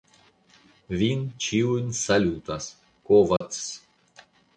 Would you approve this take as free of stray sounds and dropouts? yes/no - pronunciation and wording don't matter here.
no